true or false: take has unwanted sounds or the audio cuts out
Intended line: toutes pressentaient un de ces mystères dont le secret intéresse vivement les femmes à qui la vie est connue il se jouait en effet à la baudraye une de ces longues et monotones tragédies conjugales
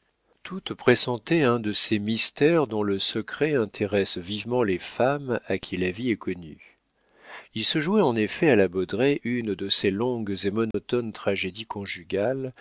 true